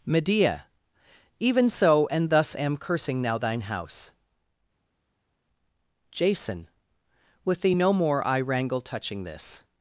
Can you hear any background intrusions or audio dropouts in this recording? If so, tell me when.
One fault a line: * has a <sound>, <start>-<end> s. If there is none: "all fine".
all fine